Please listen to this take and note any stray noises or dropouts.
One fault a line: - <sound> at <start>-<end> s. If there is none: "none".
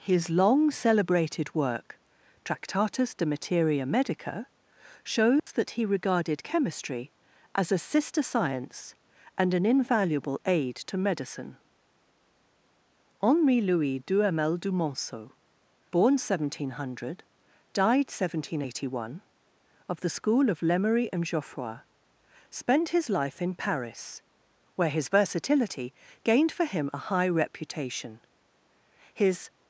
- dropout at 5.4-5.5 s